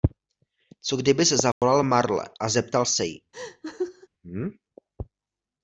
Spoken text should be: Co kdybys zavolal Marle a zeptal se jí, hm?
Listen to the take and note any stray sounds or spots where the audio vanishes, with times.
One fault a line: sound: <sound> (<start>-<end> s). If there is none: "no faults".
sound: dropout (1.5-1.6 s)
sound: laugh (3.3-4.1 s)